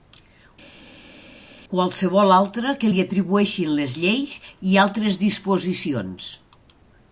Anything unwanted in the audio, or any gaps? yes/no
no